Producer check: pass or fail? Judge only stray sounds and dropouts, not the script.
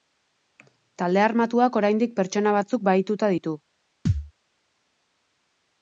fail